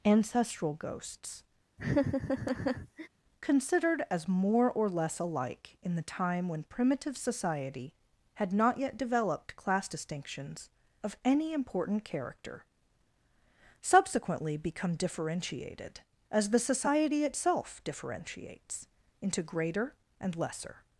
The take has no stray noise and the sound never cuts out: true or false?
false